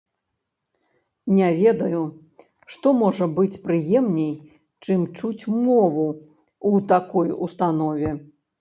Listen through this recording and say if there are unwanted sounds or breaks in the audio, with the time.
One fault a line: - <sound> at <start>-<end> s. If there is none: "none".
none